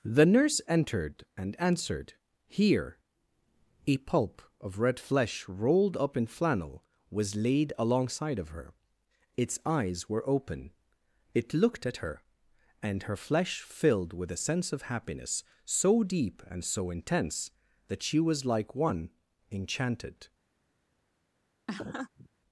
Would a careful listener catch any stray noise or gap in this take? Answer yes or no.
yes